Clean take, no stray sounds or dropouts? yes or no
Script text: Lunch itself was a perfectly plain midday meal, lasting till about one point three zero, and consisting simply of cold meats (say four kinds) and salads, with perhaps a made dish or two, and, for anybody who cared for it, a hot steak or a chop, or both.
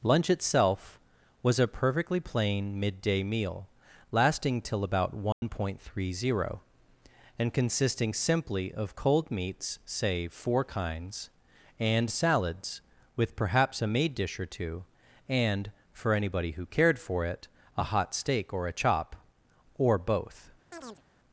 no